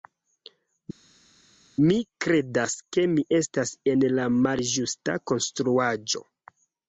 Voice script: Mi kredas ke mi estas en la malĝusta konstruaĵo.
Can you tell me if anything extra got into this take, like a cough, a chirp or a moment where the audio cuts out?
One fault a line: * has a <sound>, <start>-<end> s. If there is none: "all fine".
all fine